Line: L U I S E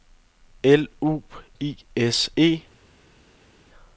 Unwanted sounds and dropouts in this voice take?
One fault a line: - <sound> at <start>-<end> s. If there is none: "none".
none